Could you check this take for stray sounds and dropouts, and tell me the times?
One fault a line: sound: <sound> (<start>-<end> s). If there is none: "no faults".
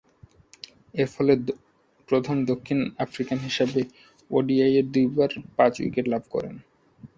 no faults